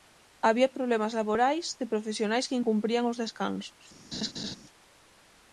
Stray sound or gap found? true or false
true